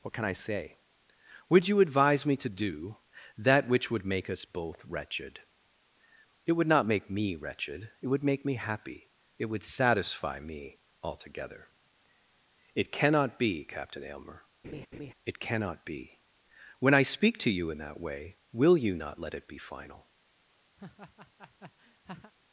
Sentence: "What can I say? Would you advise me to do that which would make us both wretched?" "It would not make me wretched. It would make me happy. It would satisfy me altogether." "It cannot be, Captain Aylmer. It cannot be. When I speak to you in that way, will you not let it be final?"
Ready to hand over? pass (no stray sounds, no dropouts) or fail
fail